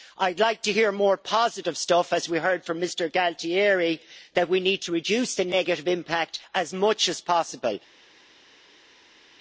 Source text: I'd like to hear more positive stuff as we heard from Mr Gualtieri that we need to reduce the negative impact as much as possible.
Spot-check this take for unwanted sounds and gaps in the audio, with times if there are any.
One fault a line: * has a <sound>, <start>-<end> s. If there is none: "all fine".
all fine